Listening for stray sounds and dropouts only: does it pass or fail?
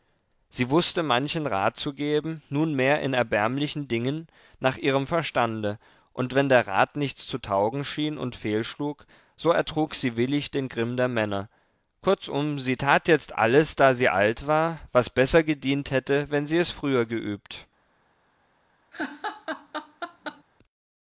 fail